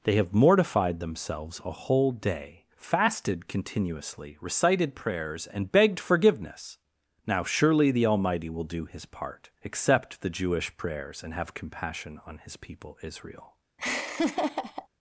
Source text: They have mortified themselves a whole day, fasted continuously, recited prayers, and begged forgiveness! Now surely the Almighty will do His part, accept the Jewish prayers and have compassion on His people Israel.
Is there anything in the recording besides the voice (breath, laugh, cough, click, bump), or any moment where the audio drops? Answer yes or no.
yes